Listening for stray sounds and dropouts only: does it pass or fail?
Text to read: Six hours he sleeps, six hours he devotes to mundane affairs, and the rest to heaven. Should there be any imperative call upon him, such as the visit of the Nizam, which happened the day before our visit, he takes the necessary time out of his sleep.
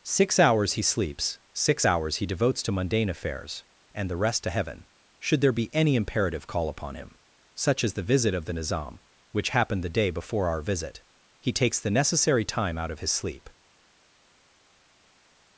pass